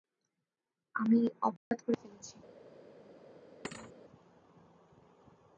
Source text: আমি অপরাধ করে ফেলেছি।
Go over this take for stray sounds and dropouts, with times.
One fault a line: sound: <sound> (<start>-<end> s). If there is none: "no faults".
sound: dropout (1.6-1.7 s)
sound: thud (3.6-3.9 s)